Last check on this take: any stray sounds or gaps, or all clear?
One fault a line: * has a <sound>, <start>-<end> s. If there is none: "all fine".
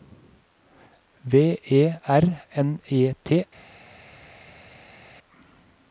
all fine